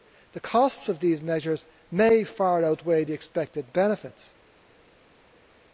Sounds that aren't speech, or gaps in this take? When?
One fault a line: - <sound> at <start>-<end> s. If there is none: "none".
none